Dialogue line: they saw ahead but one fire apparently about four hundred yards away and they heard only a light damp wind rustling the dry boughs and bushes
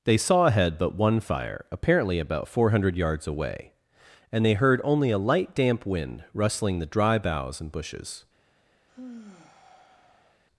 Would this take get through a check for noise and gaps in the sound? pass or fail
fail